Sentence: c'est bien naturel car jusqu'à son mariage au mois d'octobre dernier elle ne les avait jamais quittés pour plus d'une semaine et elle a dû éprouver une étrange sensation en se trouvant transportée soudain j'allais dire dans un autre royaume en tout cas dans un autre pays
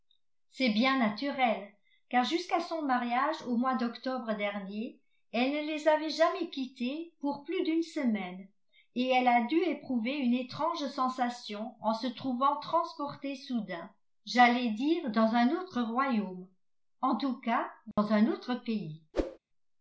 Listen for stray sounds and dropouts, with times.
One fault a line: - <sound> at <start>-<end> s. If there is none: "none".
- dropout at 17.9-18.0 s
- whoosh at 19.1-19.4 s